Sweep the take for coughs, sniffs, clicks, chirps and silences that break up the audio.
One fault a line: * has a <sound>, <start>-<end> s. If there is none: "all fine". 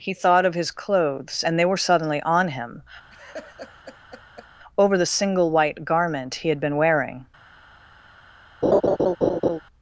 * has a laugh, 3.1-4.5 s
* has a laugh, 8.6-9.6 s